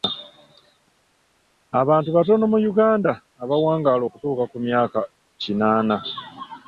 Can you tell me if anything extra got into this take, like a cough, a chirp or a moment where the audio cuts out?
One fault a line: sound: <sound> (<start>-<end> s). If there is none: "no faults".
no faults